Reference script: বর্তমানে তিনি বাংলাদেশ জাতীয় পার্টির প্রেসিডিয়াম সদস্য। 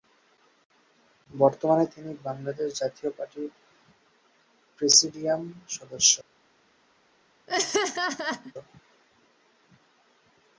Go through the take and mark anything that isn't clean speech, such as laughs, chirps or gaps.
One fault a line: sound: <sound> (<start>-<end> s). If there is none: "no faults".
sound: laugh (7.5-8.5 s)